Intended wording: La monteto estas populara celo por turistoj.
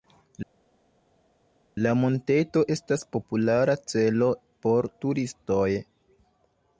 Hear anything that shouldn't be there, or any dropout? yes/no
no